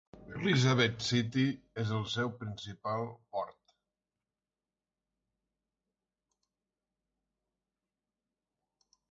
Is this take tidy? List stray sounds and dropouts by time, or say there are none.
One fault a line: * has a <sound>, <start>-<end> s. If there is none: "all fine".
all fine